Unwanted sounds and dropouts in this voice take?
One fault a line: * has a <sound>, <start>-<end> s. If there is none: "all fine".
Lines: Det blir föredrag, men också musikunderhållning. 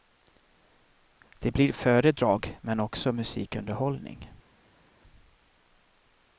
all fine